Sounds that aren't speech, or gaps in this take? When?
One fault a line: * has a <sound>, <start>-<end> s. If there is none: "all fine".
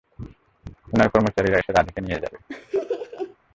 * has a laugh, 2.5-3.4 s